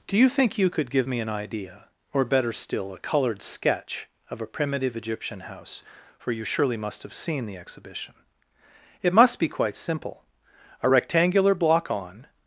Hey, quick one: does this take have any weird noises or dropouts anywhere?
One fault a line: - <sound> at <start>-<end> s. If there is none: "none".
none